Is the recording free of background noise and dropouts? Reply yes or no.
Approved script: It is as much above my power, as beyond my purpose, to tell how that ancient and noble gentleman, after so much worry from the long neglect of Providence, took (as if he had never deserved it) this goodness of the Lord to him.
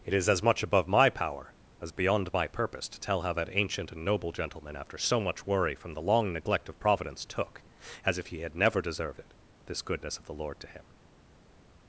yes